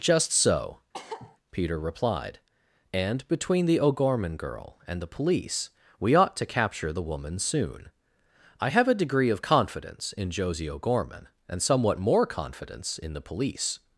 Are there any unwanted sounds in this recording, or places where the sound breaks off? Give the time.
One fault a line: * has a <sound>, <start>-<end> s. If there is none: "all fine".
* has a cough, 0.9-1.4 s